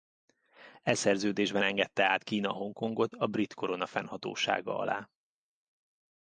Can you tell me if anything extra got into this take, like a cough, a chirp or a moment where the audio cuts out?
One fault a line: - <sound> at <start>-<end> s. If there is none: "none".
none